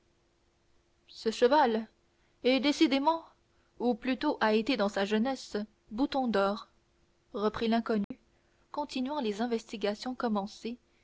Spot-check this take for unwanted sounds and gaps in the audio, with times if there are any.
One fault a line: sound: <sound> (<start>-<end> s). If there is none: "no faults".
sound: dropout (8.0-8.1 s)